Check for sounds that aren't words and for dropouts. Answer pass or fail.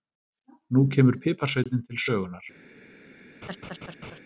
fail